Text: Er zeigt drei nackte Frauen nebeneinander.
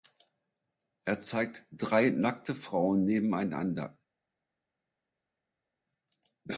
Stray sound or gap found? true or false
false